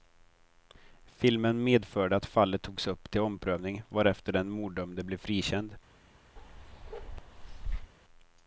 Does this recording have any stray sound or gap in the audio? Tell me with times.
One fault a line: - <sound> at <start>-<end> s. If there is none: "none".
- bark at 6.4-7.9 s